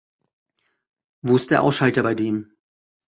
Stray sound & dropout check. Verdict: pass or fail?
pass